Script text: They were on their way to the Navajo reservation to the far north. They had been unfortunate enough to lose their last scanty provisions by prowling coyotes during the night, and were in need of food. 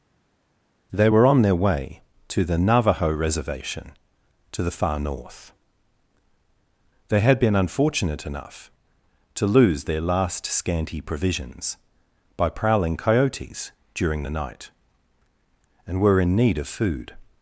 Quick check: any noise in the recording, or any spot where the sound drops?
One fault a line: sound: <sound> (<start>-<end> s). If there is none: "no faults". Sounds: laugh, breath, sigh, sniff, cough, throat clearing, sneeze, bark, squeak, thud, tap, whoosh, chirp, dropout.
no faults